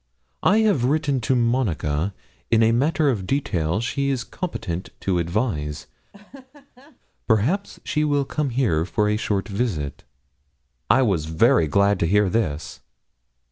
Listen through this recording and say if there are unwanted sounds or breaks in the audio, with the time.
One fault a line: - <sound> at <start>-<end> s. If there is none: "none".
- laugh at 6.1-7.0 s